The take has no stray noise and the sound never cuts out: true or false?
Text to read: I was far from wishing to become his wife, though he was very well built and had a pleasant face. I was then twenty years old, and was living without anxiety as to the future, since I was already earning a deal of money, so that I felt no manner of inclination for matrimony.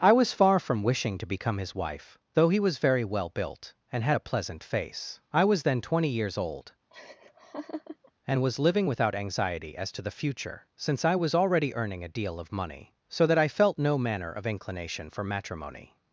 false